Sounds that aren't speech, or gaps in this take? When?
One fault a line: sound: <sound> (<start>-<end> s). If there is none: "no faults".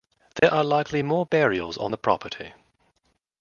sound: dropout (0.4-0.4 s)